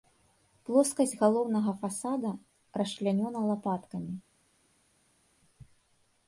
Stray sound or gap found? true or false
false